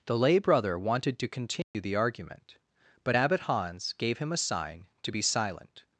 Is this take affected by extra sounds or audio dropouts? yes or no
yes